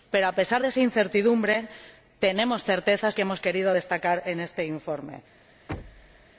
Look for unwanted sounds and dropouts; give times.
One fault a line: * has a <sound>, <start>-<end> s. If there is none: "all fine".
* has a thud, 5.7-6.3 s